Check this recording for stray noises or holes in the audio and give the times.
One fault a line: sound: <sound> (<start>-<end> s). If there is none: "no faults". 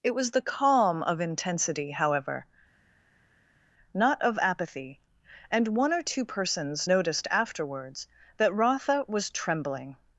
no faults